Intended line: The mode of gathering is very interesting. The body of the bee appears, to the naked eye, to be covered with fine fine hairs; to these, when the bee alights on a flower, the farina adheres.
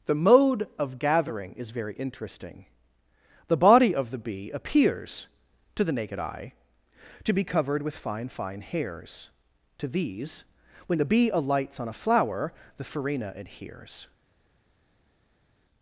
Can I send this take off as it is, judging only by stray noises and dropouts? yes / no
yes